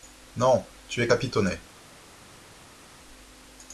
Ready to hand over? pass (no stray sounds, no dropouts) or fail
pass